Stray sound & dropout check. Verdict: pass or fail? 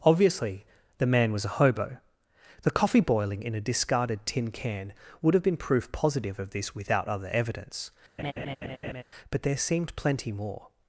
fail